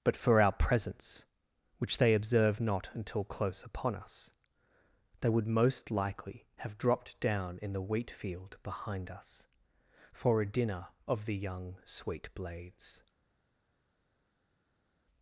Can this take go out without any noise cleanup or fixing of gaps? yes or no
yes